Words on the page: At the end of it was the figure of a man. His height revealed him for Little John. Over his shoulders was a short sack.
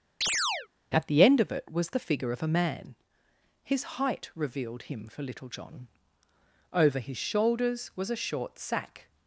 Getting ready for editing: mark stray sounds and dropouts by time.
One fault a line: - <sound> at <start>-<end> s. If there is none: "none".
- chirp at 0.2-0.7 s